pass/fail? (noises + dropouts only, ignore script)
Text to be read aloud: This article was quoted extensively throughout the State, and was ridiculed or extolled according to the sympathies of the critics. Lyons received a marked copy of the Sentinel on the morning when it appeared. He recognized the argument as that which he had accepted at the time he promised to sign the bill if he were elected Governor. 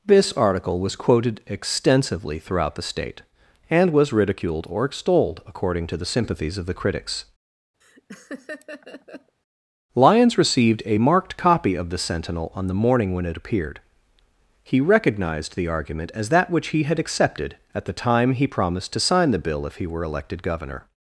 fail